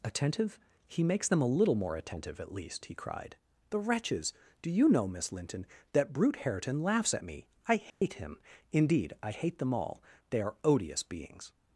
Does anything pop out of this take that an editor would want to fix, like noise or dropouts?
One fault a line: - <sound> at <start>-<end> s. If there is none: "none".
- dropout at 7.9-8.0 s